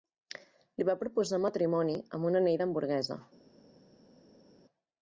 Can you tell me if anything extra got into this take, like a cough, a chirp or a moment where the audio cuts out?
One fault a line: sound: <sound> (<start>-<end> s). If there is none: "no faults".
no faults